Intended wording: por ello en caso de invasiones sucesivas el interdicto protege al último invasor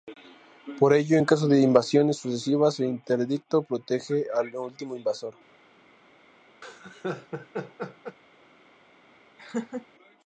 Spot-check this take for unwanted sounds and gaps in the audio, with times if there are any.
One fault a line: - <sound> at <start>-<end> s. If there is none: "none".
- laugh at 6.6-8.2 s
- laugh at 9.4-9.9 s